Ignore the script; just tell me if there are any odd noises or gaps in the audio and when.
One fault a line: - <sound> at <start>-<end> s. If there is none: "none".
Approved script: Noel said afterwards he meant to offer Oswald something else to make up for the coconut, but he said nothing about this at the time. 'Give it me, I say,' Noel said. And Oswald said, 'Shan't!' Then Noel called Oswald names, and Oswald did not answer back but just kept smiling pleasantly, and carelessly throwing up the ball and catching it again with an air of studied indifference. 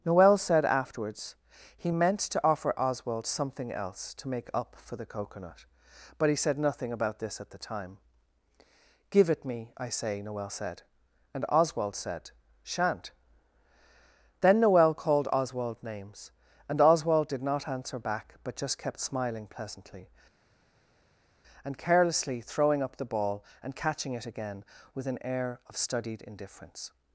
none